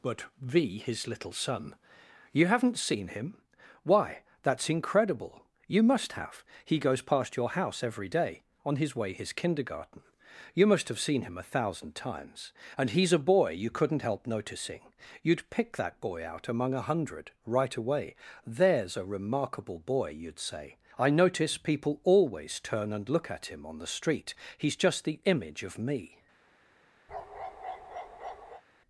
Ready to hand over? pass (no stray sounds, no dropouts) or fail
fail